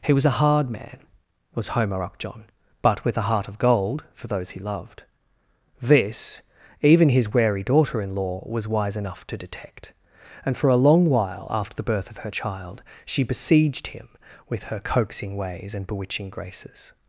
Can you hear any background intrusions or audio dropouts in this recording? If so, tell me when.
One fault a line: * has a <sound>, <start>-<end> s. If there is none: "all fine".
all fine